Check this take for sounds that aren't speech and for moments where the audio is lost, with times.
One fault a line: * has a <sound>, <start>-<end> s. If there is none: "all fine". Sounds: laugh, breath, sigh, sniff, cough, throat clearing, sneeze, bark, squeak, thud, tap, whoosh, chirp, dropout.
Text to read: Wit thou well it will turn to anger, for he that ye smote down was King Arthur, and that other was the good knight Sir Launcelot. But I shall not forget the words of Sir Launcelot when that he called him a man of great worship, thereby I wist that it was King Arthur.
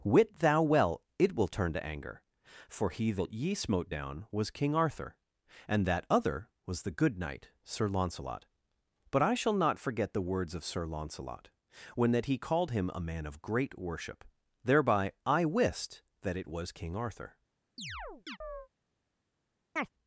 * has a chirp, 17.8-18.7 s
* has a chirp, 19.8-19.9 s